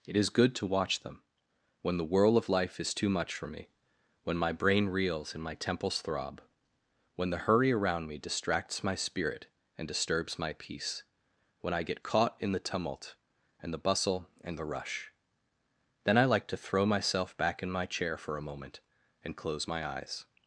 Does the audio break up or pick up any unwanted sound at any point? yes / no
no